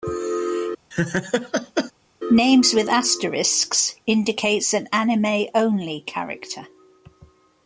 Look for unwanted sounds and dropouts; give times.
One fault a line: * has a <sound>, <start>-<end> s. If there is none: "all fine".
* has a laugh, 0.9-1.9 s